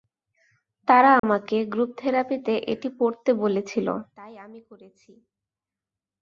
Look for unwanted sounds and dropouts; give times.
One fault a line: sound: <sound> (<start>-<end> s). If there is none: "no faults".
sound: dropout (1.2-1.2 s)